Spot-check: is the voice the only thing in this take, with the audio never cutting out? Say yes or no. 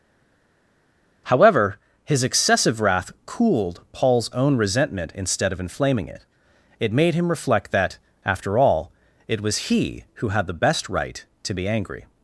yes